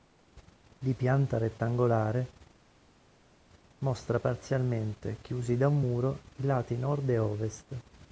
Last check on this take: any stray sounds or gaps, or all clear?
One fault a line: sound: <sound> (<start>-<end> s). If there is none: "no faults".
no faults